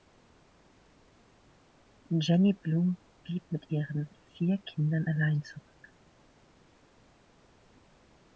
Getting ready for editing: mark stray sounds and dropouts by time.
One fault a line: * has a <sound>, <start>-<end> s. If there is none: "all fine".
all fine